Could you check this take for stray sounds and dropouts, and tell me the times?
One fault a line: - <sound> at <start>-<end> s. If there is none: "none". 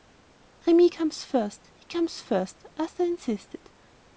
none